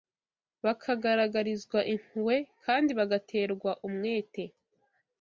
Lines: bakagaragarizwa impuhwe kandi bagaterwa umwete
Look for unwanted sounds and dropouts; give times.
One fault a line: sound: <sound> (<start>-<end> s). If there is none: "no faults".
no faults